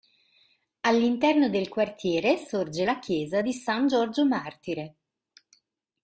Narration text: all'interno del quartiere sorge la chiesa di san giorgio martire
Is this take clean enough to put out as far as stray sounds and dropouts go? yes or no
yes